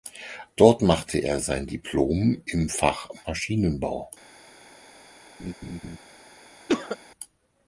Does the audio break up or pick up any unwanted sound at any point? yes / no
yes